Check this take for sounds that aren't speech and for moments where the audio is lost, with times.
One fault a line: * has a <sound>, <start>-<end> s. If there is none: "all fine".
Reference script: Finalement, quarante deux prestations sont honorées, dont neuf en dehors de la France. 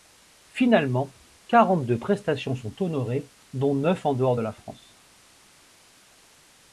all fine